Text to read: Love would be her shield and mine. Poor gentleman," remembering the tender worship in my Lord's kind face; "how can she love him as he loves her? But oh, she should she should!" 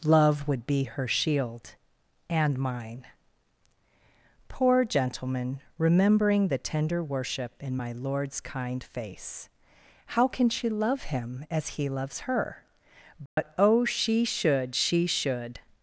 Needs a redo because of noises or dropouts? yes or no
yes